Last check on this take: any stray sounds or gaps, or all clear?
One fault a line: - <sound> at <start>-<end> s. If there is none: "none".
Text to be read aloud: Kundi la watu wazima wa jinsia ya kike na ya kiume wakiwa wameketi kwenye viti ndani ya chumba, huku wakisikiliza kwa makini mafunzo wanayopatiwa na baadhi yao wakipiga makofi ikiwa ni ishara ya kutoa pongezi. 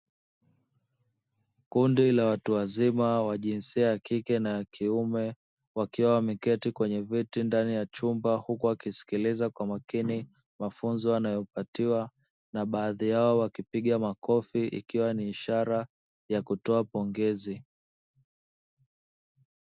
none